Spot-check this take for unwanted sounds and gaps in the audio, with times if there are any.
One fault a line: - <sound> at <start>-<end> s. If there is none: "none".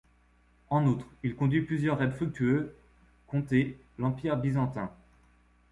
none